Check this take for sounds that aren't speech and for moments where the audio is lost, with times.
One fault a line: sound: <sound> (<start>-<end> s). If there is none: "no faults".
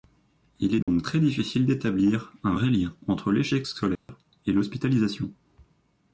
sound: dropout (0.8-0.9 s)
sound: dropout (4.0-4.1 s)